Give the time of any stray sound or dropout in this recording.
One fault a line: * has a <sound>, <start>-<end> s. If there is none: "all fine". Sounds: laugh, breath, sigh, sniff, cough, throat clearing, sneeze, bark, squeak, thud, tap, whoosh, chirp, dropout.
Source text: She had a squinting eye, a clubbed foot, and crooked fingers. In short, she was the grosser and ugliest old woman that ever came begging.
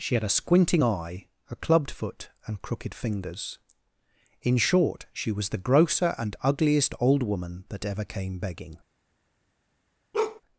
* has a bark, 10.1-10.4 s